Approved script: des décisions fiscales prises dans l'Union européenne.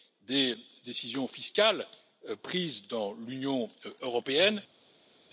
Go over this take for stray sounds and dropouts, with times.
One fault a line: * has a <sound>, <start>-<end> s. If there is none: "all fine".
all fine